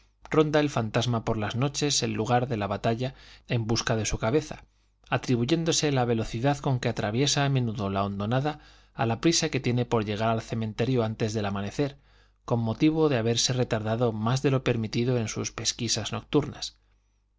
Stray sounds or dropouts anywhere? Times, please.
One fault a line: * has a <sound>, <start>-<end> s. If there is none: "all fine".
all fine